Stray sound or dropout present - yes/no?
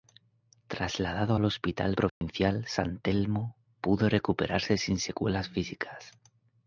yes